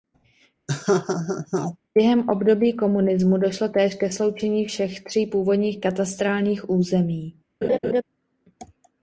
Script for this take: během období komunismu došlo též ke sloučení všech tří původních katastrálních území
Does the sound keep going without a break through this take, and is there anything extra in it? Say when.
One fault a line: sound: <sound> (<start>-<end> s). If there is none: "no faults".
sound: laugh (0.7-1.8 s)
sound: laugh (7.6-8.0 s)